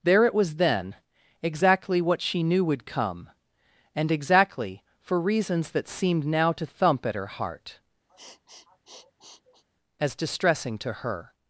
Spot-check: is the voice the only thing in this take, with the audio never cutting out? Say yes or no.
no